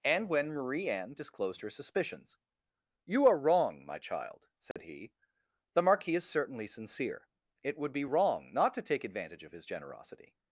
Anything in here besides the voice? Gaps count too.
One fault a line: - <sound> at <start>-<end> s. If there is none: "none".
- dropout at 4.7-4.8 s